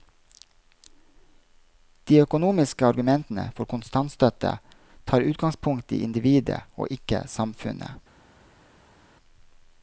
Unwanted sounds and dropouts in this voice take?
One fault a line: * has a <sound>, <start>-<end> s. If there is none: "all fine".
all fine